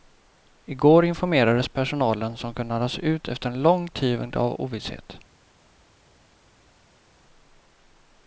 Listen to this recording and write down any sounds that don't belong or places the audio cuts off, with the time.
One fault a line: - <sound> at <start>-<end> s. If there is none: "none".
none